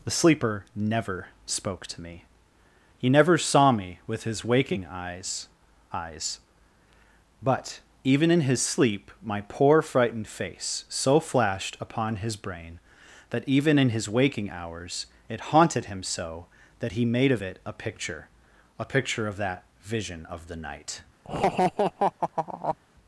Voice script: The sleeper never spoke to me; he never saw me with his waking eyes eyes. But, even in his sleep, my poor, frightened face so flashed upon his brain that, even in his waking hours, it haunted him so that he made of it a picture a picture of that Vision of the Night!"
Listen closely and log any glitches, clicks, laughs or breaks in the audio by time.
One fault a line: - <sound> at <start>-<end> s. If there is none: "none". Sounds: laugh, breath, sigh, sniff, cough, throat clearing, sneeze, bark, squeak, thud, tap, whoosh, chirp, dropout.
- laugh at 21.2-22.8 s